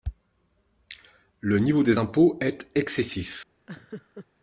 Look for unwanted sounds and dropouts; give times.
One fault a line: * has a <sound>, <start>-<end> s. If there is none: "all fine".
* has a laugh, 3.7-4.3 s